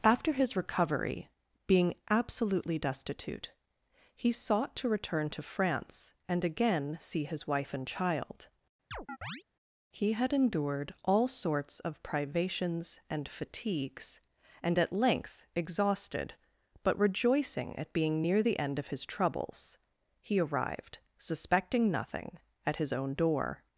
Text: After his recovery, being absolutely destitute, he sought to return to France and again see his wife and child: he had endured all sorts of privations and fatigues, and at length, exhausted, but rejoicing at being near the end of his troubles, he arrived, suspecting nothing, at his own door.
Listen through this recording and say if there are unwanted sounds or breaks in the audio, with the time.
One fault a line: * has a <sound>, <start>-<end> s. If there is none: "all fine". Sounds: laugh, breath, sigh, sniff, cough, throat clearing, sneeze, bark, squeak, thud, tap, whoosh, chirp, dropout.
* has a chirp, 8.9-9.4 s